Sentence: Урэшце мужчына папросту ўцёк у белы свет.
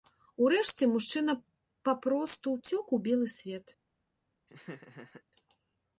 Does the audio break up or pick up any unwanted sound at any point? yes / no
yes